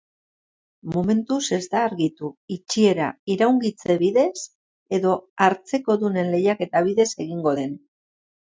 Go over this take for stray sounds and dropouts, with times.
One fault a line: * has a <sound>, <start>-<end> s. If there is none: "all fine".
all fine